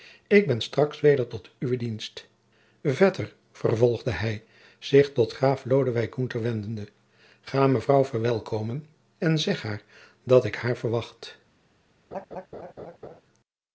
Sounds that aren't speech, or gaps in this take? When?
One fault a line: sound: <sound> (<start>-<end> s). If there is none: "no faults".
sound: laugh (12.1-13.2 s)